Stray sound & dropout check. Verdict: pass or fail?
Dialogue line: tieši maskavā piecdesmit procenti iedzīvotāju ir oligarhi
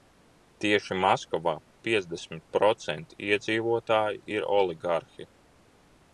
pass